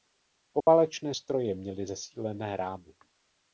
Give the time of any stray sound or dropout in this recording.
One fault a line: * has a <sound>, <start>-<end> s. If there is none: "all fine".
* has a dropout, 0.6-0.7 s